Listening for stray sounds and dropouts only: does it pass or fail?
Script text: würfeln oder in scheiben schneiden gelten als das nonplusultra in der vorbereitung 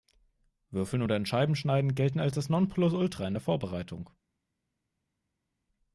pass